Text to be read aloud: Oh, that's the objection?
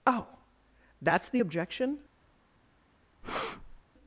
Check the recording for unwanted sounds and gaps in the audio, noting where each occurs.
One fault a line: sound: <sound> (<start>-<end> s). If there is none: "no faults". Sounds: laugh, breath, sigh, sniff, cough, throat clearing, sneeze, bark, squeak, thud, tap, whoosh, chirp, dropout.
sound: breath (3.2-3.8 s)